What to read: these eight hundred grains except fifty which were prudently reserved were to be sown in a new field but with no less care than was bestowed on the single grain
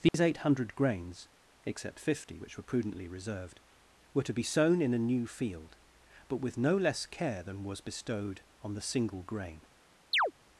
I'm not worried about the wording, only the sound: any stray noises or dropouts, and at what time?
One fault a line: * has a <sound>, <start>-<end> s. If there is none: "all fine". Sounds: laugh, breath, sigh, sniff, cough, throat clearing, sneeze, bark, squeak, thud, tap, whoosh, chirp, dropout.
* has a dropout, 0.1-0.1 s
* has a chirp, 10.1-10.3 s